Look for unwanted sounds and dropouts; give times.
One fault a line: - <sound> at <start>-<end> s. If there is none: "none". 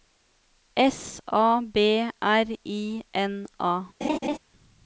- laugh at 4.0-4.4 s